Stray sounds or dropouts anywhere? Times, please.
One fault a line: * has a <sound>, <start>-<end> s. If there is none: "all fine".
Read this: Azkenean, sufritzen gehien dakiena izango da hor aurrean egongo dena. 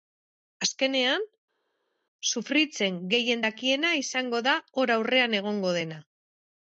all fine